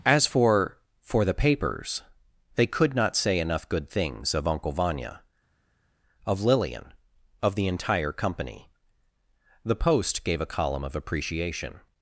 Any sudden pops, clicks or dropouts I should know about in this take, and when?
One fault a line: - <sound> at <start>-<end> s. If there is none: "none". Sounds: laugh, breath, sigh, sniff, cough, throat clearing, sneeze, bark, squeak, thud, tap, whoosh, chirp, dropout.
none